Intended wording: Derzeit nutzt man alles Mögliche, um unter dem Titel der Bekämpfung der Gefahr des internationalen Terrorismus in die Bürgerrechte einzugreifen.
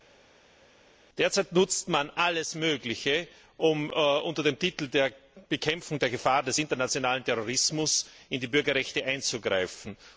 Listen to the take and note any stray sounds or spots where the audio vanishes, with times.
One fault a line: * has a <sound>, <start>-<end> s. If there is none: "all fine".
all fine